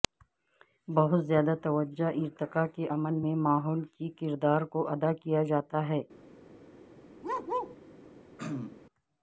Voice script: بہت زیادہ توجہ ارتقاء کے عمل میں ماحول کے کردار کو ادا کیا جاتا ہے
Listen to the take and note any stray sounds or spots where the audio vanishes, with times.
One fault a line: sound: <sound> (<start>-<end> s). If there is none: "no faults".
sound: bark (7.2-7.8 s)
sound: throat clearing (8.4-8.8 s)